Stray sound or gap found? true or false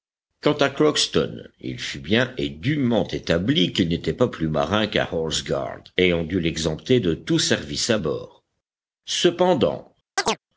true